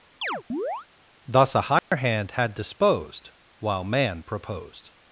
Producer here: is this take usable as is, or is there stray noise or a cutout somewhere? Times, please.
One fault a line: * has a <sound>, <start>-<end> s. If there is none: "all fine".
* has a chirp, 0.2-0.9 s
* has a dropout, 1.8-1.9 s